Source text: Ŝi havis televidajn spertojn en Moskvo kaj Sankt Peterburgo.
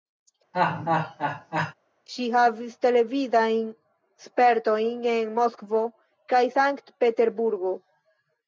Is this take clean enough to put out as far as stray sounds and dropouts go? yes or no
no